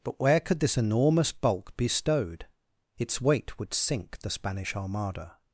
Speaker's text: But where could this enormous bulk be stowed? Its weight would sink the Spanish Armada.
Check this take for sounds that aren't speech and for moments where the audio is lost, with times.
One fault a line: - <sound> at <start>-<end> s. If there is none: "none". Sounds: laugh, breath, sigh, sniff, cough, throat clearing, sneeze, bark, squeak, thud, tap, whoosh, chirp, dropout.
none